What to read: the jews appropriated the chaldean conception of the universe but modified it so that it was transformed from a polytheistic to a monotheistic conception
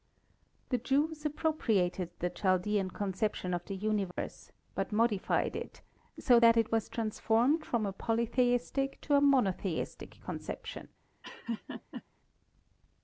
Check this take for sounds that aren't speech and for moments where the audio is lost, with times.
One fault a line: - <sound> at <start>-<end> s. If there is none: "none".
- dropout at 4.1-4.2 s
- laugh at 11.2-12.0 s